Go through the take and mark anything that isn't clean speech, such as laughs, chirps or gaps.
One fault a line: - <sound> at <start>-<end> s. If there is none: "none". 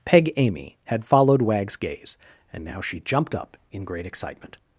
none